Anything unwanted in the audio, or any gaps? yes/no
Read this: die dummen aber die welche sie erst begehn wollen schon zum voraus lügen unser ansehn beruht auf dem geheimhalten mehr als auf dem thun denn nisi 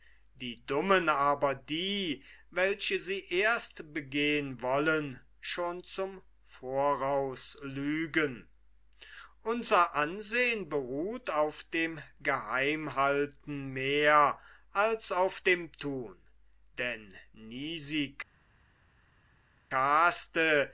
no